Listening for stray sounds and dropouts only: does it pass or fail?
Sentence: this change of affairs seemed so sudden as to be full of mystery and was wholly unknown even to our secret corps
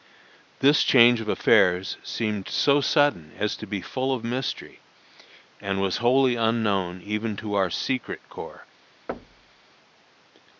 fail